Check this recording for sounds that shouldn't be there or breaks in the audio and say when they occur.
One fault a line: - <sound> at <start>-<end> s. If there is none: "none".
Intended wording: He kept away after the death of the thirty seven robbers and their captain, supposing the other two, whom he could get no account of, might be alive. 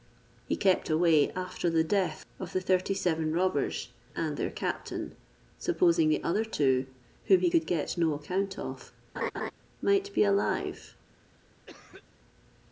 - laugh at 9.2-9.5 s
- cough at 11.7-12.0 s